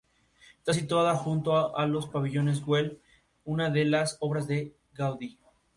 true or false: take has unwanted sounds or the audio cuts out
false